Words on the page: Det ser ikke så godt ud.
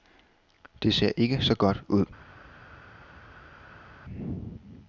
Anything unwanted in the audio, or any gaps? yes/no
no